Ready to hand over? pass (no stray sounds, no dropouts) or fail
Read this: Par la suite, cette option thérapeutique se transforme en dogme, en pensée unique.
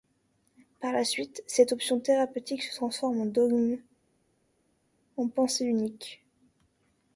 pass